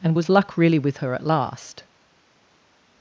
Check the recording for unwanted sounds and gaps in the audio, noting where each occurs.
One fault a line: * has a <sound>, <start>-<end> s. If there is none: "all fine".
all fine